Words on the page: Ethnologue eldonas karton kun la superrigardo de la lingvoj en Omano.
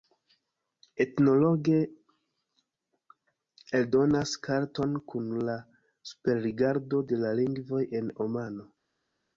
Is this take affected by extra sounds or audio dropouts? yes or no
no